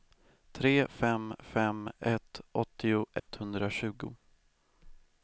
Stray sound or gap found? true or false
true